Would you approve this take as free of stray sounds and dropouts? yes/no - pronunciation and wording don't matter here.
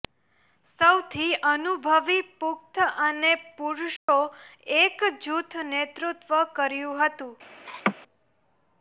no